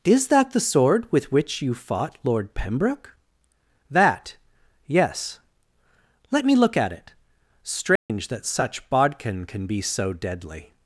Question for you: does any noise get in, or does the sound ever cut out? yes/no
yes